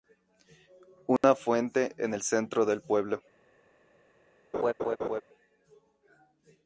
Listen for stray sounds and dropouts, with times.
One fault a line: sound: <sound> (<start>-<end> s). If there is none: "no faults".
sound: dropout (1.2-1.2 s)
sound: laugh (4.5-5.2 s)